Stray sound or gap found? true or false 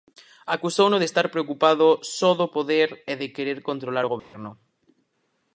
true